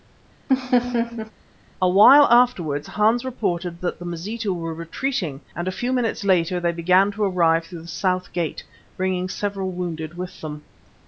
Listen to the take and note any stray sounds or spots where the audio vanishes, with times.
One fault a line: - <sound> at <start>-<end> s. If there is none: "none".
- laugh at 0.5-1.3 s